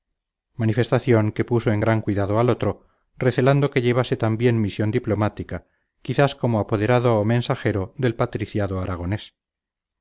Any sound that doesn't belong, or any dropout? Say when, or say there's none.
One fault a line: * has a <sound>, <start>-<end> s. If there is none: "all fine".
all fine